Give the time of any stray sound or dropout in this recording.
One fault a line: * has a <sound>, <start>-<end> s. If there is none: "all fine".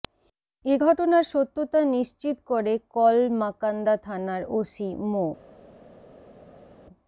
all fine